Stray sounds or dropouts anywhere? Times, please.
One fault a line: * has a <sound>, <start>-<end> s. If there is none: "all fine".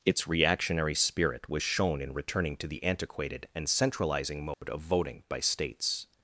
* has a dropout, 4.5-4.6 s